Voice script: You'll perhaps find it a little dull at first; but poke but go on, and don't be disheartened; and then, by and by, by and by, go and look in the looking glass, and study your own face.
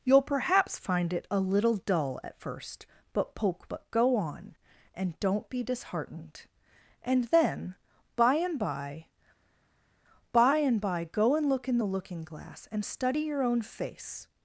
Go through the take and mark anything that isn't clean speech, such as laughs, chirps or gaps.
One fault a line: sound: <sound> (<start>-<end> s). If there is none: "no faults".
no faults